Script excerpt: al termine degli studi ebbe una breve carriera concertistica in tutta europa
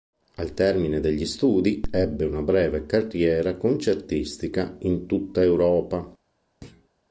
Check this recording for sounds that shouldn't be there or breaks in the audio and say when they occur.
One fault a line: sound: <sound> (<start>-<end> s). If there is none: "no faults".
sound: thud (6.6-6.9 s)